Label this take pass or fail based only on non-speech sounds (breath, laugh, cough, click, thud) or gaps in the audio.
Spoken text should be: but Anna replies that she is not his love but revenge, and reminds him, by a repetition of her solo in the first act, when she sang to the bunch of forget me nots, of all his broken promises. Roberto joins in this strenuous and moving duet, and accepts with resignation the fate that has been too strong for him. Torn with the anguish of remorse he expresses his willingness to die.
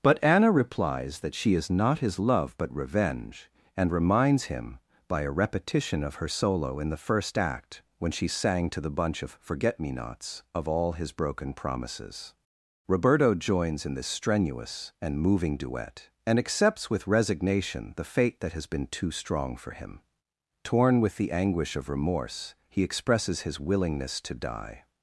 pass